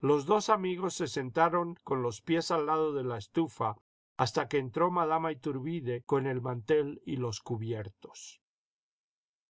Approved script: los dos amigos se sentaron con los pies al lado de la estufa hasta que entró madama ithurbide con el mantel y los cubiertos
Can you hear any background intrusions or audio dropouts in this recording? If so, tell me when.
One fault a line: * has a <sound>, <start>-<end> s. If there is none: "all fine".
all fine